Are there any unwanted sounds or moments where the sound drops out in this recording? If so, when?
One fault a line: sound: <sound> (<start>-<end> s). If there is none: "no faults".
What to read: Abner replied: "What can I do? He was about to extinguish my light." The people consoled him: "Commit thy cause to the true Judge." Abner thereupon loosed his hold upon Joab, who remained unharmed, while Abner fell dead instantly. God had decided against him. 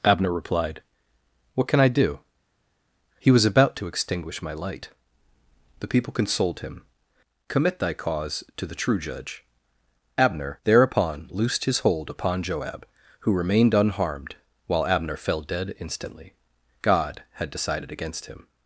no faults